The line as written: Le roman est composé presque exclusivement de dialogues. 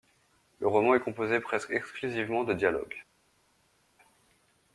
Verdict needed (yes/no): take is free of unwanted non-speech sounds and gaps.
yes